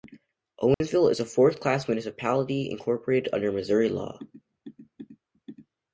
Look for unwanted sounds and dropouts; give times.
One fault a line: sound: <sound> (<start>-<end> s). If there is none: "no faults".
sound: dropout (0.7-0.8 s)